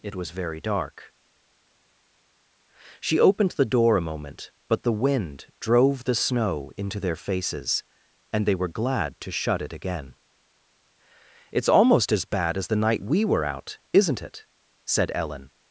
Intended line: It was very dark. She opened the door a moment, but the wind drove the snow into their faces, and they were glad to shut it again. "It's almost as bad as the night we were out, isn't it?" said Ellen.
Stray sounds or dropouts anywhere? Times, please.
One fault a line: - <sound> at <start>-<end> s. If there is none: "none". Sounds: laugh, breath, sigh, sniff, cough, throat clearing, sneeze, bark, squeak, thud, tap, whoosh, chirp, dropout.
none